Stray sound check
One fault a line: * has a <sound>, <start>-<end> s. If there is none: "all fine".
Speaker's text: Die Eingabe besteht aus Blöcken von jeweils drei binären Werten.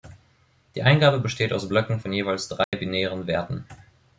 * has a dropout, 2.6-2.7 s